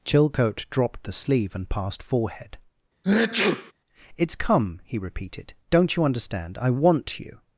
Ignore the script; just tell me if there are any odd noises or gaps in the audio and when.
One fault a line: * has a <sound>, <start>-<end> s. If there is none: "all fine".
* has a sneeze, 3.0-3.7 s